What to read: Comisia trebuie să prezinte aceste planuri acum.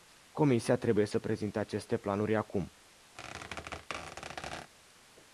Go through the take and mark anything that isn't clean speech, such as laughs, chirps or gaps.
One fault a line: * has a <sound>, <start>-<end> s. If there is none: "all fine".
* has a squeak, 3.1-4.7 s